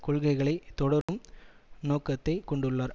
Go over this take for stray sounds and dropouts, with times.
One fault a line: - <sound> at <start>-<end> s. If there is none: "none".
- dropout at 1.0-1.1 s